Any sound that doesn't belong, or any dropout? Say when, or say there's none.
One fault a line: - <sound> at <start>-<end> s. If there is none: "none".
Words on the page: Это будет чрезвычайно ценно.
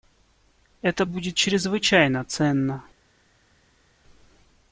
none